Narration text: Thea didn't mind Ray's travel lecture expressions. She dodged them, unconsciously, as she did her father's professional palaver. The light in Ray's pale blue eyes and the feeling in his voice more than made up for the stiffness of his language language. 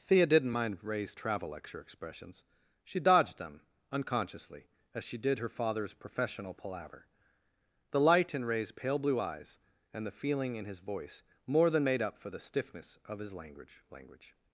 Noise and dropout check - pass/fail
pass